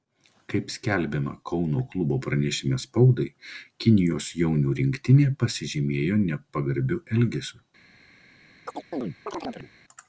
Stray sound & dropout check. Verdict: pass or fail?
fail